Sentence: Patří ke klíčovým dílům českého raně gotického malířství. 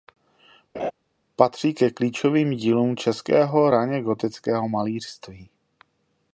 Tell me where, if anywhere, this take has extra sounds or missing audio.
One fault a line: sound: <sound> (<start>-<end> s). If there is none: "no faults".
sound: laugh (0.7-0.9 s)